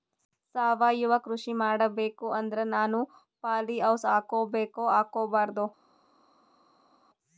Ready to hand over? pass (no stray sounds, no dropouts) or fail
pass